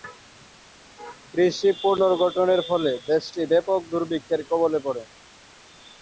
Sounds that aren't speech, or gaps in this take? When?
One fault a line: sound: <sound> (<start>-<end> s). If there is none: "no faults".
no faults